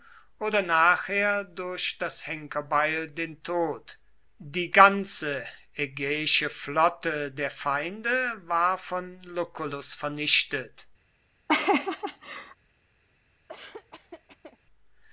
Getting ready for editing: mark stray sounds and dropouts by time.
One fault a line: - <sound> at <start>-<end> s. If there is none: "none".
- laugh at 11.5-12.6 s
- laugh at 13.5-14.6 s